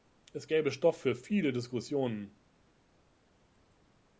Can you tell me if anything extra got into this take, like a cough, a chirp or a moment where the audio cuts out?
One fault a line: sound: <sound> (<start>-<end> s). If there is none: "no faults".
no faults